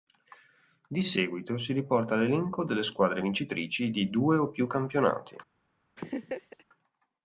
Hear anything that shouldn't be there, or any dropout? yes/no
yes